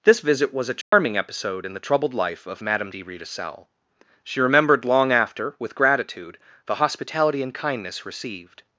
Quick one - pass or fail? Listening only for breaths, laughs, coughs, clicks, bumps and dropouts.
fail